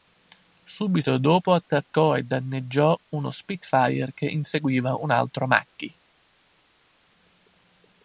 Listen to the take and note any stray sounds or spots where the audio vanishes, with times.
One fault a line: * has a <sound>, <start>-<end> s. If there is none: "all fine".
all fine